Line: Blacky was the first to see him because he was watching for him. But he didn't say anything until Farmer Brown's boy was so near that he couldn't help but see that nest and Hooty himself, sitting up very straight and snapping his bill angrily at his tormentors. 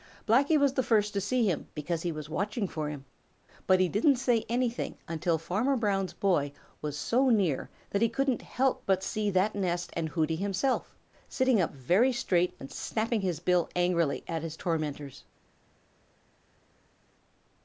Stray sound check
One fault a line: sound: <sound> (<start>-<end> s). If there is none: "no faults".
no faults